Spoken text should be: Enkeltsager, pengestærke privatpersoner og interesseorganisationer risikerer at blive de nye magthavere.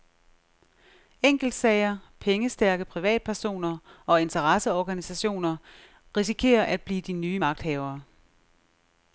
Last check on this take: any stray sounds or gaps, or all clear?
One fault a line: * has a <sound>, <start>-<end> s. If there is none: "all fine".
all fine